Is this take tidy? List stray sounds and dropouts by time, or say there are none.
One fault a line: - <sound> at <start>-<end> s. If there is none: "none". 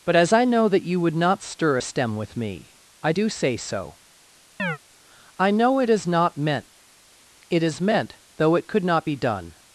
- chirp at 4.6-4.8 s